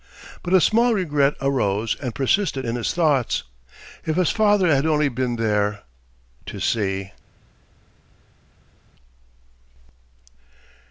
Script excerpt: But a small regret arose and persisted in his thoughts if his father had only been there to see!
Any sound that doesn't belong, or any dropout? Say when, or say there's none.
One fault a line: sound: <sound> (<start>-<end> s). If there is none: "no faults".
no faults